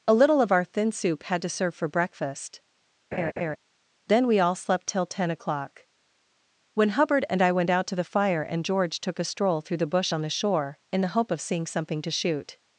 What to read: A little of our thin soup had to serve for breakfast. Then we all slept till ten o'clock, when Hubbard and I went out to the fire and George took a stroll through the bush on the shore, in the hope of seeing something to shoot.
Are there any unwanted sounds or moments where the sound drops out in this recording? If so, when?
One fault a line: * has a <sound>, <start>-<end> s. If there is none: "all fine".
* has a laugh, 3.1-3.6 s